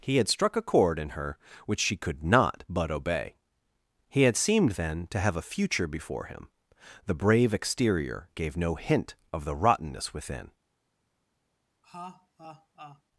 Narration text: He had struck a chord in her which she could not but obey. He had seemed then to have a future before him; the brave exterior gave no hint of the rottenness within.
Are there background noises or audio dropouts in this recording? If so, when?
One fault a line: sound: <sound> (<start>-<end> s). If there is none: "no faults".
sound: laugh (11.8-13.0 s)